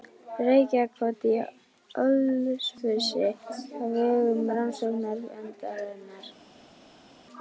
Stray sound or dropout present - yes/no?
no